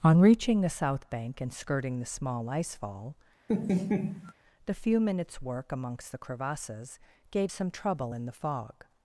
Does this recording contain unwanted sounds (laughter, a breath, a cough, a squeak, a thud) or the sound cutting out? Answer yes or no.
yes